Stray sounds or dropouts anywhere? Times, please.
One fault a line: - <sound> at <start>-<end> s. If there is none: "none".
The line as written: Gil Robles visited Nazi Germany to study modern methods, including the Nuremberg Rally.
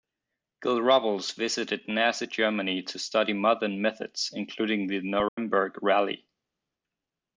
- dropout at 5.3-5.4 s